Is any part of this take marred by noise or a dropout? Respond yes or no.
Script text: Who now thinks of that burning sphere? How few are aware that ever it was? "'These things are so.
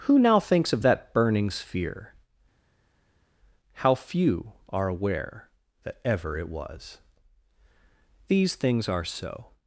no